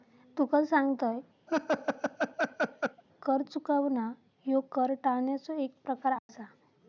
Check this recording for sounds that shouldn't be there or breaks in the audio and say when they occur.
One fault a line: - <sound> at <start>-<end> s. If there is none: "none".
- laugh at 1.5-3.0 s
- dropout at 6.2-6.3 s